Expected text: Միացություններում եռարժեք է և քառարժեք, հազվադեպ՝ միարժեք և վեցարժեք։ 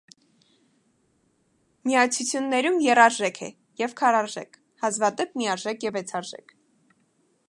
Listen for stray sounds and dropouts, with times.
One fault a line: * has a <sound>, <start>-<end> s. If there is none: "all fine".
all fine